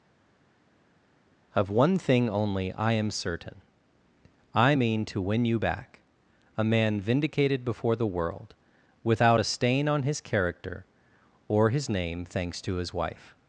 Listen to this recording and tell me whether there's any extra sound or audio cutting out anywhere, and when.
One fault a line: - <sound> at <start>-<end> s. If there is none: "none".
none